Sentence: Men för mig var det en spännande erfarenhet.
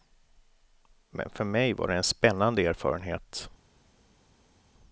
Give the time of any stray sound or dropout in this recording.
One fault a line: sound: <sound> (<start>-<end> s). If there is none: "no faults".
no faults